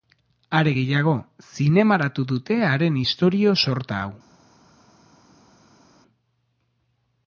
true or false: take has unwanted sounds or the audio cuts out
false